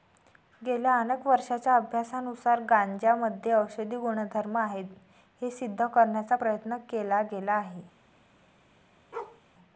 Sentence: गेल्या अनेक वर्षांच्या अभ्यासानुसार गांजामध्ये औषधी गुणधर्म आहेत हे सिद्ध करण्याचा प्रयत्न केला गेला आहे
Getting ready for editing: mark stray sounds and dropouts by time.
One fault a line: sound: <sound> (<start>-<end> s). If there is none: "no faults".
sound: bark (9.1-9.4 s)